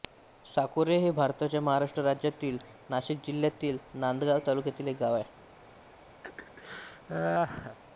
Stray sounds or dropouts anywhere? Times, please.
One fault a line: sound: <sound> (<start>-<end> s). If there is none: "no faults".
sound: laugh (6.2-7.8 s)